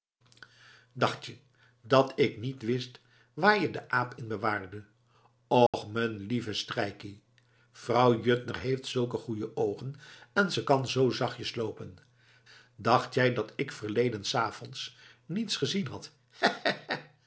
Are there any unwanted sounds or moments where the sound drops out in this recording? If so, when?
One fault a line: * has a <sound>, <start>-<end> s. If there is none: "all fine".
* has a dropout, 5.7-5.7 s